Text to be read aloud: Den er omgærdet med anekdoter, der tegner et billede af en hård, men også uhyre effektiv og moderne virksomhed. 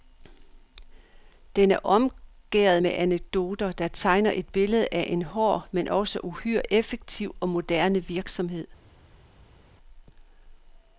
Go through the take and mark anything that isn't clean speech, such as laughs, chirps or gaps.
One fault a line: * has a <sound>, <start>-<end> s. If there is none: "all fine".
all fine